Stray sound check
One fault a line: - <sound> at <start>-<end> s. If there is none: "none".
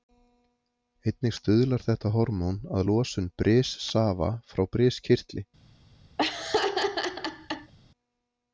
- laugh at 6.2-7.7 s